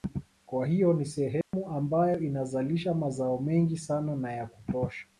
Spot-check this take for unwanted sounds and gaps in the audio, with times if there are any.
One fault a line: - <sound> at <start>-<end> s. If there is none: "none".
- dropout at 1.4-1.5 s